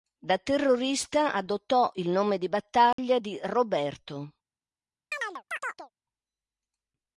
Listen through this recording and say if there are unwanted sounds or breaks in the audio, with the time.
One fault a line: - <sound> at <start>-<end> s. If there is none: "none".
- dropout at 2.9-3.0 s
- chirp at 5.1-5.9 s